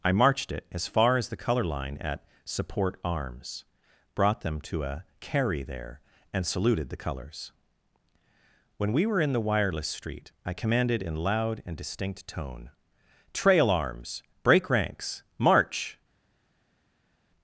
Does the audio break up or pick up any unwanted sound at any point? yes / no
no